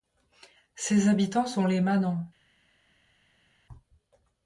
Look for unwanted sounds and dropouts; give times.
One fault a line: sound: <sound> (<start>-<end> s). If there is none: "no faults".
no faults